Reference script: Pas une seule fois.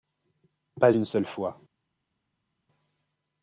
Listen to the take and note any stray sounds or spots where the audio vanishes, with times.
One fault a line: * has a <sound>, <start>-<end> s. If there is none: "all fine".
all fine